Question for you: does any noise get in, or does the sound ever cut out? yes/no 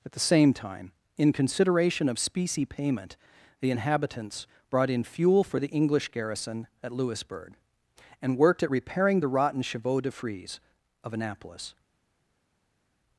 no